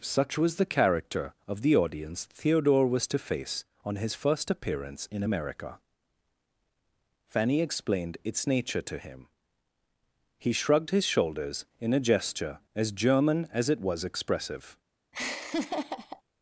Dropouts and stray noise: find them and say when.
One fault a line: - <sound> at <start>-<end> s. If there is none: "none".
- laugh at 15.1-16.2 s